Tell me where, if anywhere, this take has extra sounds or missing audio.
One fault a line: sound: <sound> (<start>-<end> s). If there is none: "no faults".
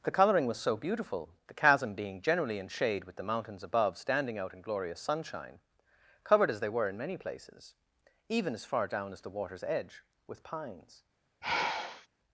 sound: sigh (11.4-12.1 s)